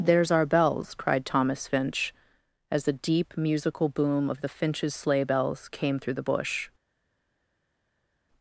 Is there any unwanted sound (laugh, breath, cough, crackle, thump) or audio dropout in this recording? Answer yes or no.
no